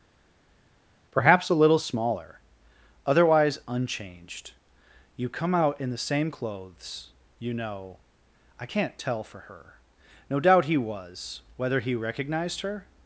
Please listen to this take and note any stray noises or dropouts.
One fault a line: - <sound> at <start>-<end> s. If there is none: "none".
none